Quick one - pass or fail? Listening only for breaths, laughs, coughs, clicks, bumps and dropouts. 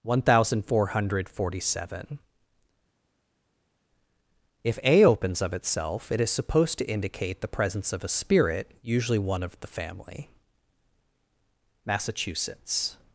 pass